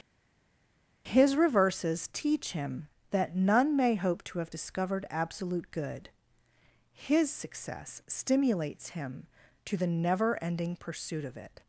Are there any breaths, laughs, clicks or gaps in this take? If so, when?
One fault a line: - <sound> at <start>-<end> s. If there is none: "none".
none